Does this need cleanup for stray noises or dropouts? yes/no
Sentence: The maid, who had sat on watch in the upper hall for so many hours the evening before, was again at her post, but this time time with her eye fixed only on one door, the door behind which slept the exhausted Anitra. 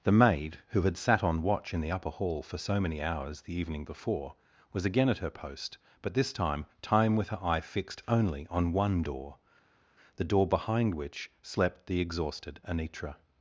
no